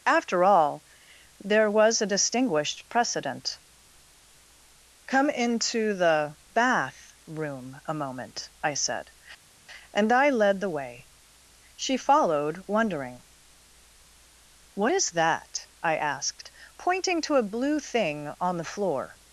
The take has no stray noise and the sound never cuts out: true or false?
true